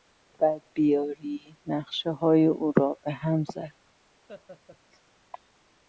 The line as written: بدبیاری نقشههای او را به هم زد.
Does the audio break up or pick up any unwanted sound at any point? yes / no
yes